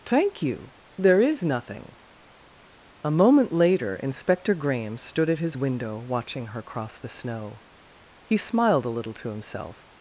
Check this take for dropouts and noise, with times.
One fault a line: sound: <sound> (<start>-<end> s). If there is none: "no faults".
no faults